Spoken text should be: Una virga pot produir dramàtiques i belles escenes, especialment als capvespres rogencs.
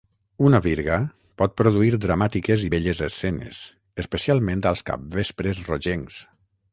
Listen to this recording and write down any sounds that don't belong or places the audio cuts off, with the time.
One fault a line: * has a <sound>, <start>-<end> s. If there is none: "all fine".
all fine